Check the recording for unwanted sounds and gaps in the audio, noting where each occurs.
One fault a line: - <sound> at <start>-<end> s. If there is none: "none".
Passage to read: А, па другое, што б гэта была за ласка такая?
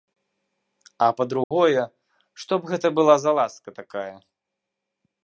- dropout at 1.4-1.5 s